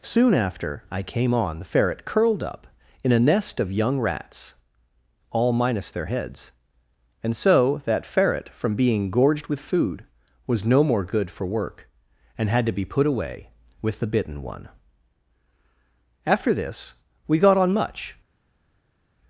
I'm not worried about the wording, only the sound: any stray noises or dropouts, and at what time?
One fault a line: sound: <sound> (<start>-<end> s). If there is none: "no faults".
no faults